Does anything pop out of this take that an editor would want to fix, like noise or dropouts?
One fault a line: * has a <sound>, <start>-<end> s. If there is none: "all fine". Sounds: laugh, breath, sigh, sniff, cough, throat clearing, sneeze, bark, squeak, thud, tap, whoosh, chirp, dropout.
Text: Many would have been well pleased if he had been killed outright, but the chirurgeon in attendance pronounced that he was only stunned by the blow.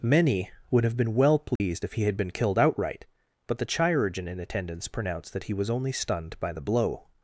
* has a dropout, 1.6-1.6 s